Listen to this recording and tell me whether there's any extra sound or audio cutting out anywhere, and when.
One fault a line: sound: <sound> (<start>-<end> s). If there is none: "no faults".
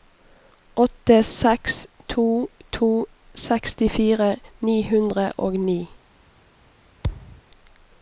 sound: thud (7.0-7.4 s)